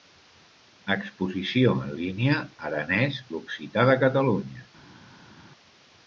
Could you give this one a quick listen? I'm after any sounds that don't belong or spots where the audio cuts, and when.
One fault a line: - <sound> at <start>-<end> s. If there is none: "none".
none